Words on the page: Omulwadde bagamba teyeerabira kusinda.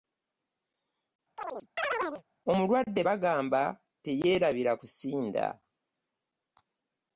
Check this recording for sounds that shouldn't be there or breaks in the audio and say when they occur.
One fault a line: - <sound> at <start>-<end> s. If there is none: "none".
- chirp at 1.4-2.2 s